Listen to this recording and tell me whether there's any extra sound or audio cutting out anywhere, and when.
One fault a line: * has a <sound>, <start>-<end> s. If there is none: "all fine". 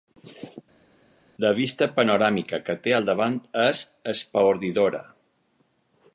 all fine